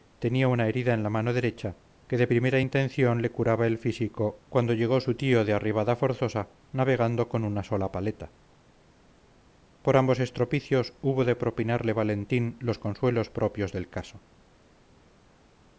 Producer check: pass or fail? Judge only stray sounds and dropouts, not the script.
pass